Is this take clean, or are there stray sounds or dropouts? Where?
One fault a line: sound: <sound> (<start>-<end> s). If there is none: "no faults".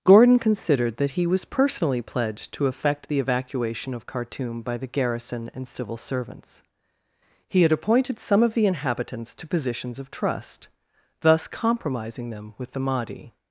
no faults